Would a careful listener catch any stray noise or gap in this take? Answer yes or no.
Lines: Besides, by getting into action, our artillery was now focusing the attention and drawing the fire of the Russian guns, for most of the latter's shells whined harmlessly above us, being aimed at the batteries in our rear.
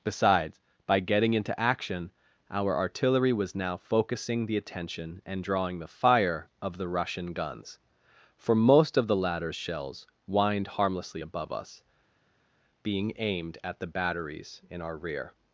no